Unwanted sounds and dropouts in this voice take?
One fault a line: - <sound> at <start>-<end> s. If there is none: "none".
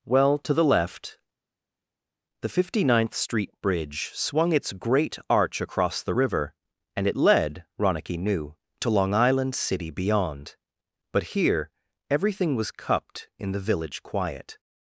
none